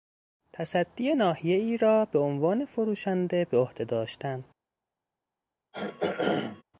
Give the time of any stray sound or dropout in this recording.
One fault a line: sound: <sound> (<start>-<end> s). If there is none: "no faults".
sound: throat clearing (5.7-6.6 s)